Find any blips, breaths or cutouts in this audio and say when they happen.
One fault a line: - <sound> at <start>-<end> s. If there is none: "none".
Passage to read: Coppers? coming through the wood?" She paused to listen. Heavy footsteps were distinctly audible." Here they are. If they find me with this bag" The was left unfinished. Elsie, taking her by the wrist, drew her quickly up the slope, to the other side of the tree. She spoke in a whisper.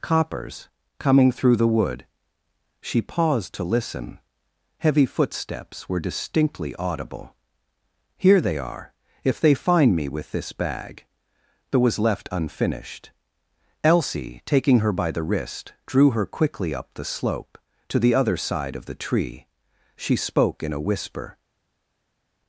none